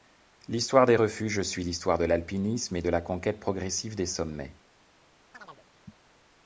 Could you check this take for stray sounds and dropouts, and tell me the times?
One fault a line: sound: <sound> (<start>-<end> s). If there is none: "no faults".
sound: chirp (5.3-5.7 s)